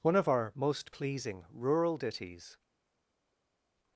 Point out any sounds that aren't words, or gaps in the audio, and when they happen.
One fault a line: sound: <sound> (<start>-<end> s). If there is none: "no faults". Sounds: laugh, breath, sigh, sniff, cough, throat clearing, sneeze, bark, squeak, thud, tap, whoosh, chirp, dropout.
no faults